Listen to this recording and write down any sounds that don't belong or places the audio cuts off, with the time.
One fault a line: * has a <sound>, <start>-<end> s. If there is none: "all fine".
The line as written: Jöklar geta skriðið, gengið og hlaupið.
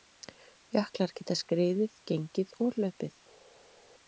all fine